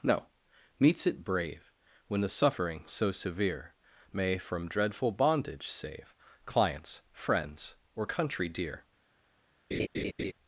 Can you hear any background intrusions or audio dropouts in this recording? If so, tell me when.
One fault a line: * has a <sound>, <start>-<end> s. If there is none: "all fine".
* has a laugh, 9.7-10.3 s